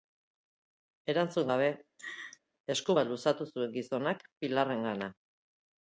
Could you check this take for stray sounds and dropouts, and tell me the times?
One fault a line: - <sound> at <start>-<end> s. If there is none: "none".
- laugh at 2.0-2.4 s